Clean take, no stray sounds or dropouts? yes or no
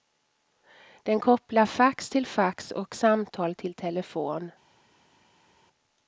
yes